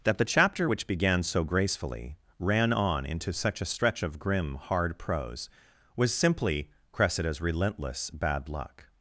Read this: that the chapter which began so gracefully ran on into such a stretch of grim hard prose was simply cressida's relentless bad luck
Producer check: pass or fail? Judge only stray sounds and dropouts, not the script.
pass